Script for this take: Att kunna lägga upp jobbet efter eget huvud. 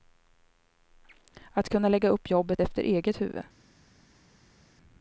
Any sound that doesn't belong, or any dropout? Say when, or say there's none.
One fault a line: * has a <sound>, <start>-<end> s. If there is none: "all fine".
all fine